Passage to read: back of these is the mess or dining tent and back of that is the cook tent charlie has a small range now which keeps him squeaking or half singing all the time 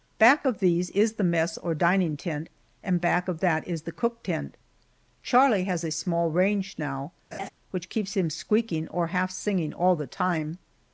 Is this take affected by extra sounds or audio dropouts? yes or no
yes